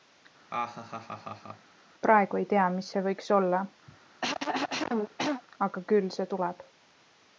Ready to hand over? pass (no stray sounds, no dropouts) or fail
fail